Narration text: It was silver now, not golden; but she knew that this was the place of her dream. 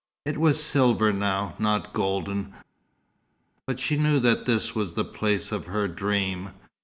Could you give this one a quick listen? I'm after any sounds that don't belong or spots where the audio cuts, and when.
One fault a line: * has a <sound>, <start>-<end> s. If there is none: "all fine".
all fine